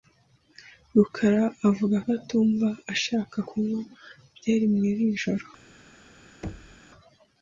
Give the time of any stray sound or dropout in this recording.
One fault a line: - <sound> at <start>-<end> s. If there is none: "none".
- thud at 6.4-6.8 s